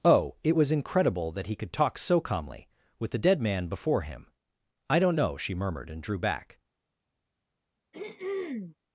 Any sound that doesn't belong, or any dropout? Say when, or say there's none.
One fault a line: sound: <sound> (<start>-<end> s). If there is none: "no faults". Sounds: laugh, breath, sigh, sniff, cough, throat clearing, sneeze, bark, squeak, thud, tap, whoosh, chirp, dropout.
sound: throat clearing (7.9-8.8 s)